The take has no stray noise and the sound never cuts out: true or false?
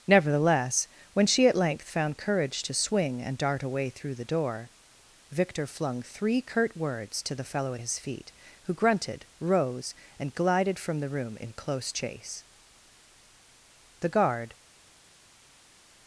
true